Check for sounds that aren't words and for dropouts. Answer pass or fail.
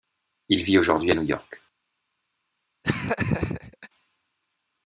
fail